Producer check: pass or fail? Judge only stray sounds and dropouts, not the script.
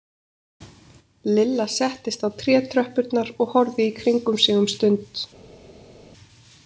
pass